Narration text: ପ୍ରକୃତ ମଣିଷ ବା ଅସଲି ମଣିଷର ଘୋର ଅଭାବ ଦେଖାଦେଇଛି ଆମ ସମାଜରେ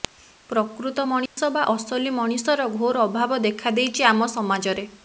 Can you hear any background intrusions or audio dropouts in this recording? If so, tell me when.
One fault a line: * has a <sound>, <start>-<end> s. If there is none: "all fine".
* has a dropout, 1.3-1.4 s